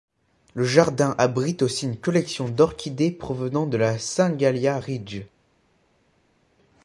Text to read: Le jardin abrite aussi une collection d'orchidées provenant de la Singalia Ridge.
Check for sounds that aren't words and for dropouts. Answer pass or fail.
pass